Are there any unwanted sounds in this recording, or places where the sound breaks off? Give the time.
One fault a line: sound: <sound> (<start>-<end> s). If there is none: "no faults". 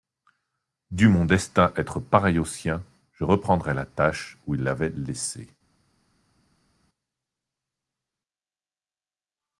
no faults